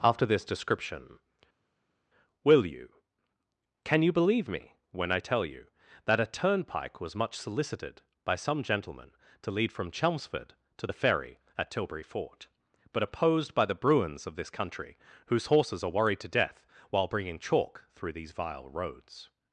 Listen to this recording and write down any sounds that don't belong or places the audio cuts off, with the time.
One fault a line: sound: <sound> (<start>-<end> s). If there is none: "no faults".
no faults